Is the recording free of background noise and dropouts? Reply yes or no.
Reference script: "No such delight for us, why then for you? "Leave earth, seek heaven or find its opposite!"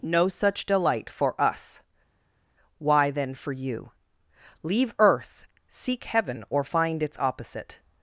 yes